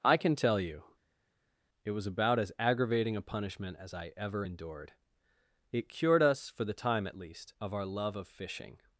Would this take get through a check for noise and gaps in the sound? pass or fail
pass